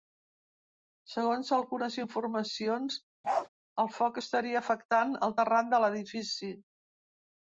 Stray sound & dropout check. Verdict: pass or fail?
fail